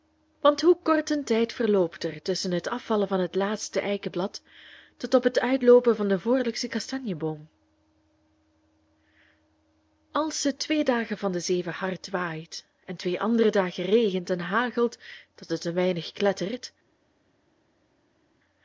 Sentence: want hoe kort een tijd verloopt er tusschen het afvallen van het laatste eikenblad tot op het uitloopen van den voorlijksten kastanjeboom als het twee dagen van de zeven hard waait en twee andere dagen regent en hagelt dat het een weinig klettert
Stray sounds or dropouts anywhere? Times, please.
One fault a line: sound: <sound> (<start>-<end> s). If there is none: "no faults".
no faults